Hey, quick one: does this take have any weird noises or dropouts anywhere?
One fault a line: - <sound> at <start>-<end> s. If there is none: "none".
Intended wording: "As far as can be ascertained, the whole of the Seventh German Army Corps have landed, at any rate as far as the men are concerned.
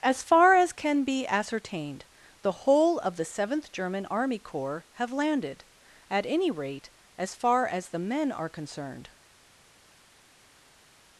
none